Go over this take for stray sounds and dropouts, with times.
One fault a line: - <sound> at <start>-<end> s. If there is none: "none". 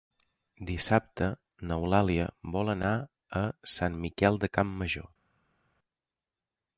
none